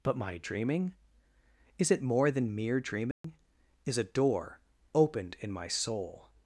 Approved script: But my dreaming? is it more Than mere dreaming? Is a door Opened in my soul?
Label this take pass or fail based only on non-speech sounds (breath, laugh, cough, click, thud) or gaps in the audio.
fail